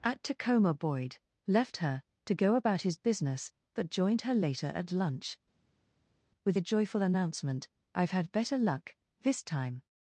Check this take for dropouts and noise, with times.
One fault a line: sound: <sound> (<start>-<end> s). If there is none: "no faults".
no faults